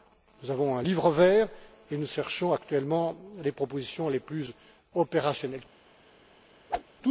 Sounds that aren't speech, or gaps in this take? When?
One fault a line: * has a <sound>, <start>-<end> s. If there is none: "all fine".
* has a whoosh, 6.7-6.8 s